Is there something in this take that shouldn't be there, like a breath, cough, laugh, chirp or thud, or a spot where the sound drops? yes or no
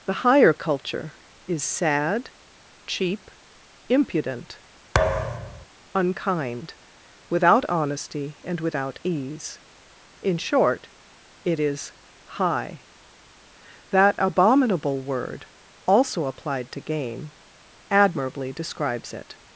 yes